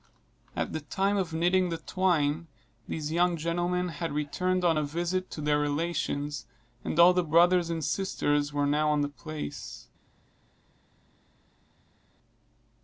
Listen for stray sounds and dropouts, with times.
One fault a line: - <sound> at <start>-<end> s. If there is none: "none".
none